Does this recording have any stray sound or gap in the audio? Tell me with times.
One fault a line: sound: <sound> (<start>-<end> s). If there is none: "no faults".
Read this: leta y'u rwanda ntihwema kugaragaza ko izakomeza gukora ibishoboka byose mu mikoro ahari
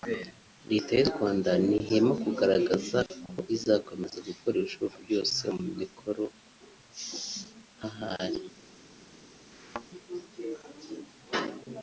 sound: thud (9.5-9.9 s)